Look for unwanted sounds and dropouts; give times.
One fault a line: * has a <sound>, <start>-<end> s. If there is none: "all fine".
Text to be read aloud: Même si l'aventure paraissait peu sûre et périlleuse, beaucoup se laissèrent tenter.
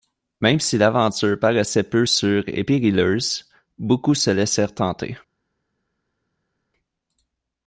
all fine